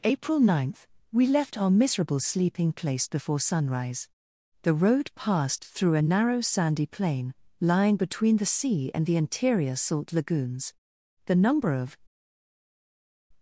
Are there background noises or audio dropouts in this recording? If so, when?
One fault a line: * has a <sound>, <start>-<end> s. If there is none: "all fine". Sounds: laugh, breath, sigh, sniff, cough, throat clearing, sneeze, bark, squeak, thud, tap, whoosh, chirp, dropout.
all fine